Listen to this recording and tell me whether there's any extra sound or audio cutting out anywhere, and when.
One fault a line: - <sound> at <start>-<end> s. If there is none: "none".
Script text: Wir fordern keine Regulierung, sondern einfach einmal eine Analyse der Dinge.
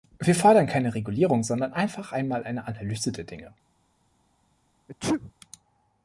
- sneeze at 4.9-5.3 s